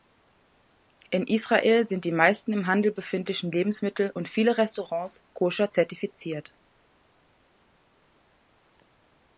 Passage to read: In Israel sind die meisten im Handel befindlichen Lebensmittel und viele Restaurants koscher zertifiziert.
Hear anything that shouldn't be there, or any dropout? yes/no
no